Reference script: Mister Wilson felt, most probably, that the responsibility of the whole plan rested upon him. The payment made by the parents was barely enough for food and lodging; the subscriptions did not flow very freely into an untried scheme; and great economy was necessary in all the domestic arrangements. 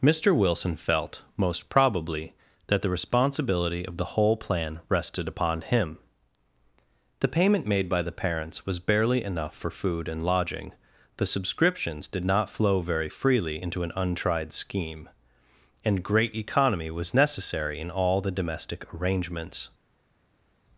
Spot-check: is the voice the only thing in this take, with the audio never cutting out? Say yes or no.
yes